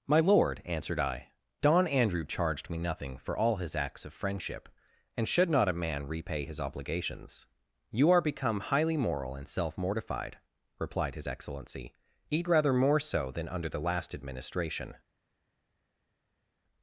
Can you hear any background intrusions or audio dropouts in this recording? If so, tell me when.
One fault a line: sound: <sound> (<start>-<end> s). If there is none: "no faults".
no faults